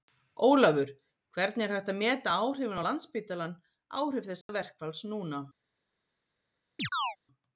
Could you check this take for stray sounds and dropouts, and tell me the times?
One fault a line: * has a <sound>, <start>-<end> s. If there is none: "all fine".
* has a dropout, 4.4-4.5 s
* has a chirp, 6.8-7.2 s